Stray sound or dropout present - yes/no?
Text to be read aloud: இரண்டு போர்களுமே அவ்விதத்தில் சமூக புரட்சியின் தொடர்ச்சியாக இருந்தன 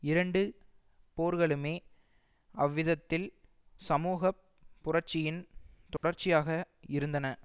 yes